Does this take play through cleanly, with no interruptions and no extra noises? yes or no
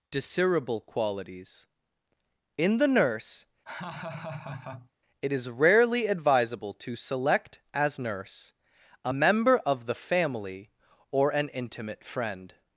no